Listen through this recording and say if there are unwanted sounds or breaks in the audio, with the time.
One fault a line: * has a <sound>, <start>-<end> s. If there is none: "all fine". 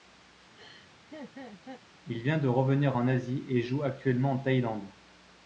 * has a laugh, 0.5-1.8 s